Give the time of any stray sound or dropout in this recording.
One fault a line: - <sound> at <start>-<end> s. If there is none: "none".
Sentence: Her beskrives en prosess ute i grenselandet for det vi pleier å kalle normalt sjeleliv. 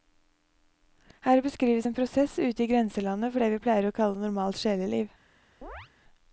- chirp at 5.6-5.9 s